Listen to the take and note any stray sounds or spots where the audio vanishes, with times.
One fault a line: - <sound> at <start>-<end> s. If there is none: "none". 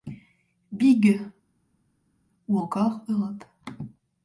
none